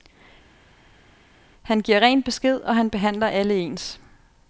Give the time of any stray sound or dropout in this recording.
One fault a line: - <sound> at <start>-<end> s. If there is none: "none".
none